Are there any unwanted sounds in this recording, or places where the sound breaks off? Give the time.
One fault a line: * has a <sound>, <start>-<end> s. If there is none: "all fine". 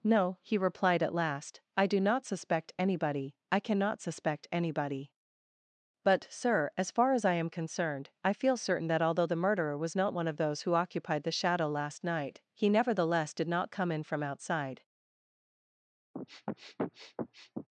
* has a sniff, 16.1-17.7 s